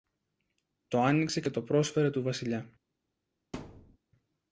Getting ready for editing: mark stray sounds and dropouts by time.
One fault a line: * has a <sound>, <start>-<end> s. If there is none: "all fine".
* has a thud, 3.5-4.0 s